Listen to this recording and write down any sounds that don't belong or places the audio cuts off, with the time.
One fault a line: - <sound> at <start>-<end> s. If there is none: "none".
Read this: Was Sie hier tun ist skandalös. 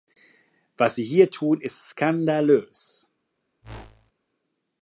- whoosh at 3.6-4.1 s